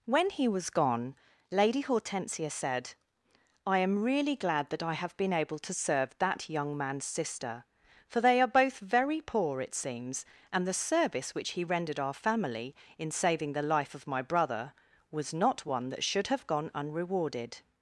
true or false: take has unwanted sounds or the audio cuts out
false